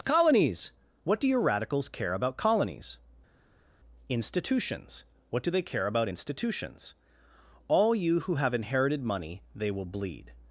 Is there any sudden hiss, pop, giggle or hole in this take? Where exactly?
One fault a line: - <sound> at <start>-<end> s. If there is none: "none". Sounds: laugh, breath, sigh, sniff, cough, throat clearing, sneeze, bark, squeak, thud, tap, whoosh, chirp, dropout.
none